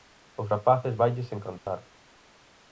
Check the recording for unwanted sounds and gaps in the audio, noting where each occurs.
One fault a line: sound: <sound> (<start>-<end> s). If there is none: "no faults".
sound: dropout (1.6-1.7 s)